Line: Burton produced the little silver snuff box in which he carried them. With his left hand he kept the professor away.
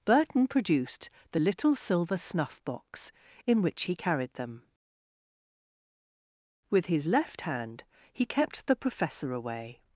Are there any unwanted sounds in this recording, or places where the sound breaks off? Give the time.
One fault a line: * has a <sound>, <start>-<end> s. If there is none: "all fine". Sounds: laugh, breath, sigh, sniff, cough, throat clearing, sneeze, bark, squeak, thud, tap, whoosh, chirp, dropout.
all fine